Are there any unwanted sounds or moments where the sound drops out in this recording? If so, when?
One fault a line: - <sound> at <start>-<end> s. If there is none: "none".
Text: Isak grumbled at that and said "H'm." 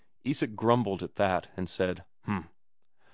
none